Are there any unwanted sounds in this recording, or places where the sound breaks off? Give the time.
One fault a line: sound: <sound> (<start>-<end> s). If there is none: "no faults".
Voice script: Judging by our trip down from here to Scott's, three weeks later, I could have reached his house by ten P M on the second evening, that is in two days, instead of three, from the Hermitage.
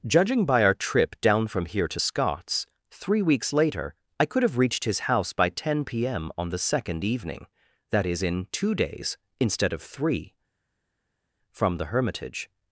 no faults